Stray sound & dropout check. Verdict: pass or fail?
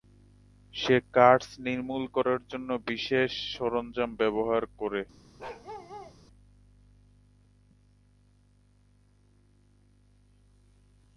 fail